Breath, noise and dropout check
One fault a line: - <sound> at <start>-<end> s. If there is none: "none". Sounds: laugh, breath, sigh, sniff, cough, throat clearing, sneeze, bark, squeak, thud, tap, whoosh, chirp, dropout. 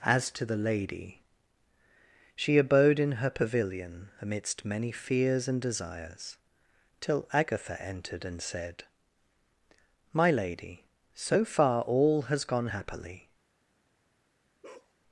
- bark at 14.6-14.9 s